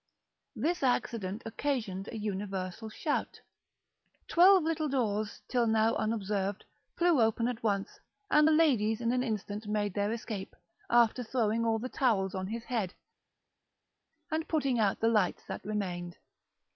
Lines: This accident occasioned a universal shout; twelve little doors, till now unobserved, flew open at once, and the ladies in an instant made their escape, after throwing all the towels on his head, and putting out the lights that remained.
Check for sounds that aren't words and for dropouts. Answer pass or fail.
pass